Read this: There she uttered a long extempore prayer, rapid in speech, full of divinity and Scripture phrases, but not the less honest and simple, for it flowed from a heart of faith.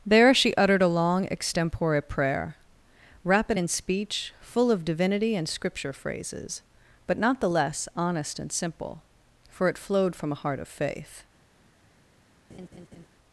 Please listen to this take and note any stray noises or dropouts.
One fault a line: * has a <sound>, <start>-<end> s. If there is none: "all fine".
* has a laugh, 12.5-13.1 s